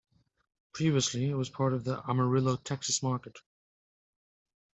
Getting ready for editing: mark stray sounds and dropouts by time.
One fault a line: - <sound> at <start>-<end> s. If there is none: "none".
none